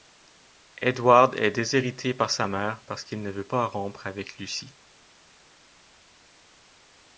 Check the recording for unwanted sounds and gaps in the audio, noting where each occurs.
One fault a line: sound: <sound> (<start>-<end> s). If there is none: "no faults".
no faults